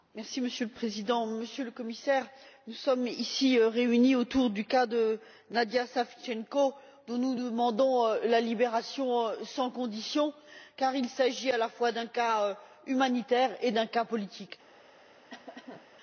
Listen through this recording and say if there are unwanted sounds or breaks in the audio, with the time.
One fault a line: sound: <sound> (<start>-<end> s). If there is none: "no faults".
sound: cough (15.3-15.9 s)